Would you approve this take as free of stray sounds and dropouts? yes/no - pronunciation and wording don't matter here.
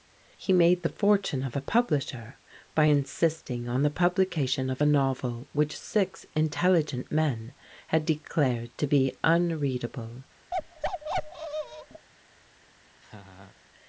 no